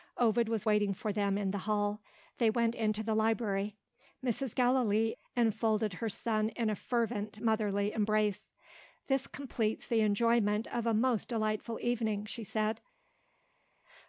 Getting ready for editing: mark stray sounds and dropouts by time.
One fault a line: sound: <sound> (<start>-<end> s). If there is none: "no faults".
no faults